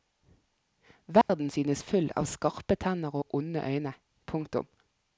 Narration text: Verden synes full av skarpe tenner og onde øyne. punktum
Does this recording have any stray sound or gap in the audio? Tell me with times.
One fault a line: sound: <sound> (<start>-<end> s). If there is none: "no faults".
sound: dropout (1.2-1.3 s)